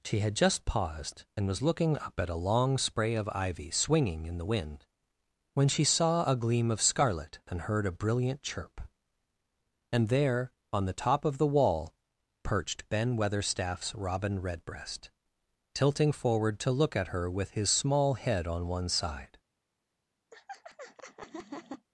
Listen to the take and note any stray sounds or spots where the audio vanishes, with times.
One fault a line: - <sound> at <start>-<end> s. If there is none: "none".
- laugh at 20.3-21.9 s